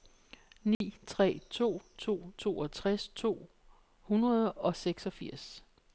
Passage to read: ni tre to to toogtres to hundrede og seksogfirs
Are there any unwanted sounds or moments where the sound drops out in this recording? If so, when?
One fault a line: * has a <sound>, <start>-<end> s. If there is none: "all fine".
* has a dropout, 0.7-0.8 s